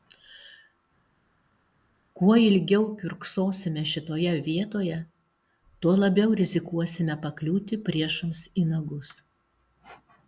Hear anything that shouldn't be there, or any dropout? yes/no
no